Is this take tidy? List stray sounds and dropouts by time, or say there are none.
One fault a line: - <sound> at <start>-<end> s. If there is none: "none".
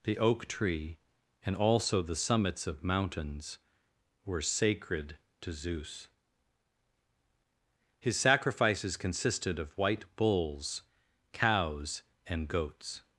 none